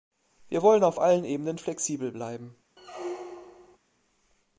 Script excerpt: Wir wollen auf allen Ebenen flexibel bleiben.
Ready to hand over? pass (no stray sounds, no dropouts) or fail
fail